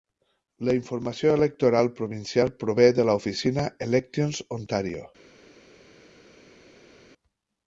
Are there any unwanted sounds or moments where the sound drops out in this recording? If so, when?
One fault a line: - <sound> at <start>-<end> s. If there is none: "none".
none